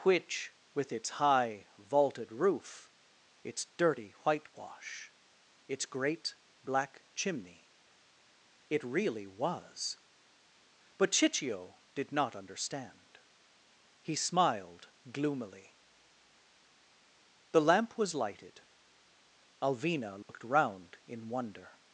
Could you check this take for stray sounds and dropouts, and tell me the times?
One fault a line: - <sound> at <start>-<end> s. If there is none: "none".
- dropout at 20.2-20.3 s